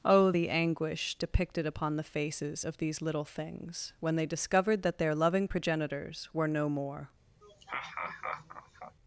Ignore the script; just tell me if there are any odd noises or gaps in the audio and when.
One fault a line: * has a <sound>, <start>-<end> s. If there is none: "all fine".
* has a laugh, 7.4-9.0 s